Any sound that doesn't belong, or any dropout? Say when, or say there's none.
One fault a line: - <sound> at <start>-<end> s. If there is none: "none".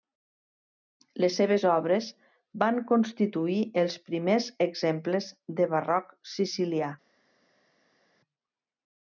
none